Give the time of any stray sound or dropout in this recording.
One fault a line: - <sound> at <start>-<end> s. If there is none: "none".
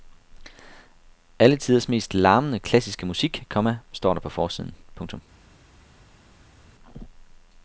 none